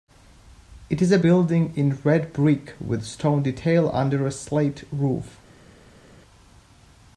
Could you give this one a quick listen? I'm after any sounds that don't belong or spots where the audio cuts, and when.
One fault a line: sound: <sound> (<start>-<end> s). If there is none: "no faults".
no faults